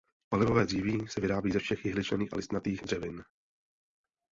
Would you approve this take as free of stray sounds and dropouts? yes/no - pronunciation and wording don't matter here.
yes